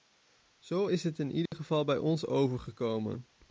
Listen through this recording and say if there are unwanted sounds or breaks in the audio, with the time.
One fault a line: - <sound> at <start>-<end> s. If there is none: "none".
- dropout at 1.5-1.5 s